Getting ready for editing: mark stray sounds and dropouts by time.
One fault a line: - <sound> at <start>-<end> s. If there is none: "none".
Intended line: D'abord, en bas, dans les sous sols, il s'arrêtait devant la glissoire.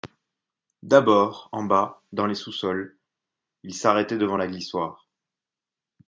none